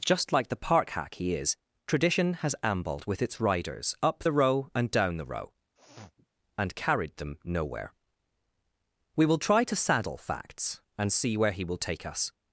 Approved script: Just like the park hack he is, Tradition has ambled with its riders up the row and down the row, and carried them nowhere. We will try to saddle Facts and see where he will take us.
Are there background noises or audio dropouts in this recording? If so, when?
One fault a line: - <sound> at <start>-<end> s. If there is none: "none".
- sniff at 5.8-6.3 s